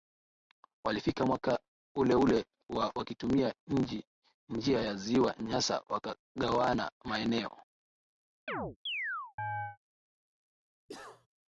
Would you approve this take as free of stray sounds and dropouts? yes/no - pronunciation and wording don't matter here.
no